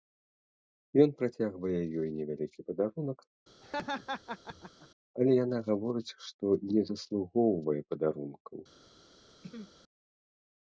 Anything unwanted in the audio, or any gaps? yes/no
yes